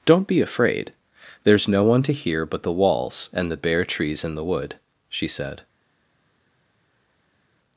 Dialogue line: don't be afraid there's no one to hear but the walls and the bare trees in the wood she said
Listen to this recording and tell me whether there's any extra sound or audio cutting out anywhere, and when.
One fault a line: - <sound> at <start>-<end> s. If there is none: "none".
none